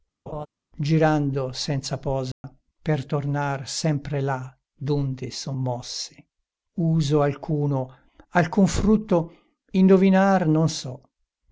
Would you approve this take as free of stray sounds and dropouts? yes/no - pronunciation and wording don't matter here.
no